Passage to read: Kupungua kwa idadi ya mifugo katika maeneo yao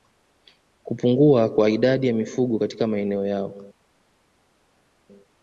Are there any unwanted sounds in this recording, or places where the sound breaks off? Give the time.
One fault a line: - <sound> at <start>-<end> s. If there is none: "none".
none